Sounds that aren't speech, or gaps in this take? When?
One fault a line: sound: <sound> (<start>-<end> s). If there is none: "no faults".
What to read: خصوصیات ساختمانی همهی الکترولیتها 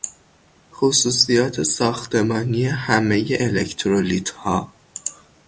no faults